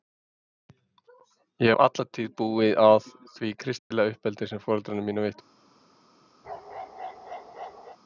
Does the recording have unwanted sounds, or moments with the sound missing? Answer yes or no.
yes